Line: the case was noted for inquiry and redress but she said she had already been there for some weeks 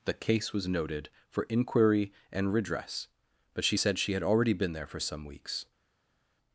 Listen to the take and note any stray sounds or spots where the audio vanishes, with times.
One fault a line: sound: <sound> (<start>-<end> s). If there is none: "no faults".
no faults